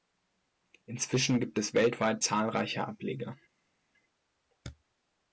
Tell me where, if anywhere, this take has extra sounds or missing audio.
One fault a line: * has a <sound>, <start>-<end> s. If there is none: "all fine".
all fine